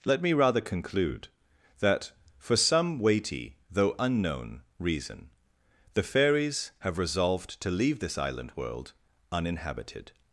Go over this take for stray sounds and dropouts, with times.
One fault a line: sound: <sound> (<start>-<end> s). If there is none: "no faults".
no faults